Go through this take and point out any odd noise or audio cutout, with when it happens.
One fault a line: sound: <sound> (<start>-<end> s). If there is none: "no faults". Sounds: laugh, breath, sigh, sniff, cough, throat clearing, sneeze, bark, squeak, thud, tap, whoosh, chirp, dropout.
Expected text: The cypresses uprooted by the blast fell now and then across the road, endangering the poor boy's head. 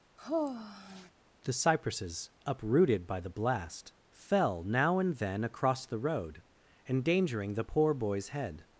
sound: sigh (0.2-1.1 s)